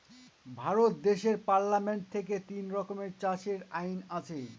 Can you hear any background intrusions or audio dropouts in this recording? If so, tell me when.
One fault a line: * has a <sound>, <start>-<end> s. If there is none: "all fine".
all fine